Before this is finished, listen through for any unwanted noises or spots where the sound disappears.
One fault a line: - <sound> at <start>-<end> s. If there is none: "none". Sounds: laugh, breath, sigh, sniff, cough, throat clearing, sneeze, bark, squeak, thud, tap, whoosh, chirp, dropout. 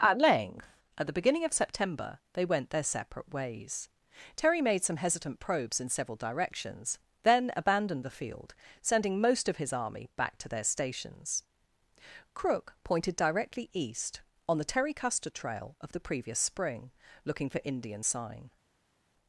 none